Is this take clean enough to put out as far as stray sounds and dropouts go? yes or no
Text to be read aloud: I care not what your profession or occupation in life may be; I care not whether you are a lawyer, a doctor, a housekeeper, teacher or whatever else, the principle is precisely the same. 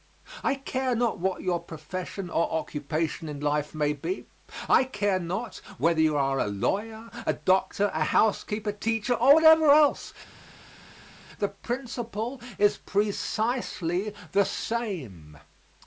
yes